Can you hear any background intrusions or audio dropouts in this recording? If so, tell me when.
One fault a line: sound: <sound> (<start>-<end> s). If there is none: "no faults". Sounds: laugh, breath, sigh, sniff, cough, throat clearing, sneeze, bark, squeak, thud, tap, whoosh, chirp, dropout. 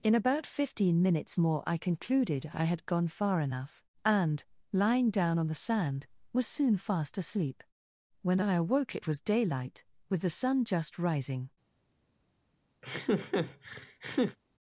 sound: laugh (12.8-14.4 s)